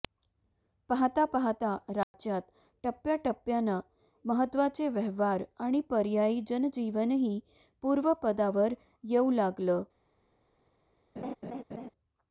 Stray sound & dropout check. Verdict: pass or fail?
fail